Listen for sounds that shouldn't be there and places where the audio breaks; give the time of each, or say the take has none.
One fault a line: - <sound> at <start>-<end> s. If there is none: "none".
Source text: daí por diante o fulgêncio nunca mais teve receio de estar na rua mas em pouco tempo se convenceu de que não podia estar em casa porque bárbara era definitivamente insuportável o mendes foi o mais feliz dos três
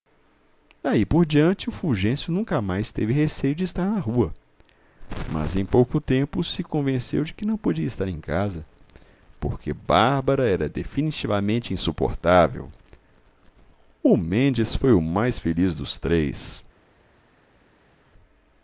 none